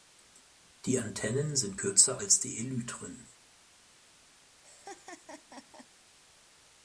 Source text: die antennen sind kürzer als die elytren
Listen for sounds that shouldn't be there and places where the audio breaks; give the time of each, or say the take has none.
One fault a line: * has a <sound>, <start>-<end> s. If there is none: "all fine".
* has a laugh, 4.6-5.9 s